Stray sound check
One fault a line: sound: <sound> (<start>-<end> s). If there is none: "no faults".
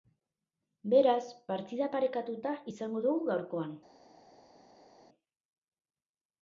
no faults